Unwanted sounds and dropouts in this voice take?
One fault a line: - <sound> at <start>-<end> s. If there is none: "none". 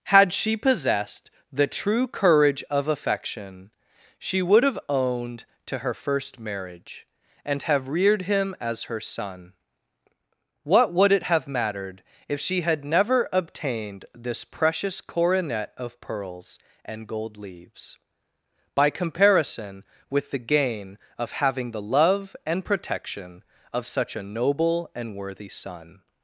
none